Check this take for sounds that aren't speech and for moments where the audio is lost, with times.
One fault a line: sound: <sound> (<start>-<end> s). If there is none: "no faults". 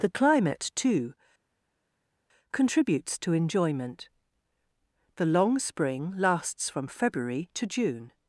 no faults